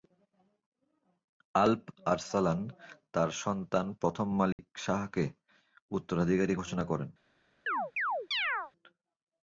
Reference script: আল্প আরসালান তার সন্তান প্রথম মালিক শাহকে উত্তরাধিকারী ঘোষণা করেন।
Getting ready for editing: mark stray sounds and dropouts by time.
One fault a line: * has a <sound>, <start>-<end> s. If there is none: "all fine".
* has a dropout, 4.5-4.6 s
* has a chirp, 7.7-8.7 s